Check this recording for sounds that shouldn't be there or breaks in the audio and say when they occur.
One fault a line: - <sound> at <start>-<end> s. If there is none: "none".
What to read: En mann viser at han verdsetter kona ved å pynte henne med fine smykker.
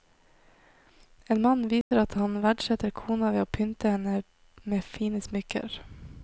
- dropout at 1.8-1.9 s